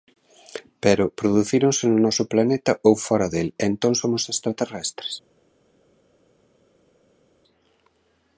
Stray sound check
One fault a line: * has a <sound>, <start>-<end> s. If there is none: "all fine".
all fine